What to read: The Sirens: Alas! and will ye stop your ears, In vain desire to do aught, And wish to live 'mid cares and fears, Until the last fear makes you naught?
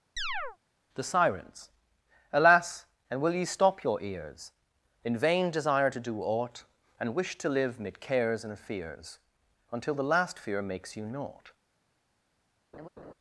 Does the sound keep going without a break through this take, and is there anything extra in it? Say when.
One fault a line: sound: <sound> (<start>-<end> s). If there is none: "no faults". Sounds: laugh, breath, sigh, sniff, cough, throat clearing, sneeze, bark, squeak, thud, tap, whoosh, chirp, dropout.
sound: chirp (0.2-0.6 s)
sound: laugh (12.7-13.1 s)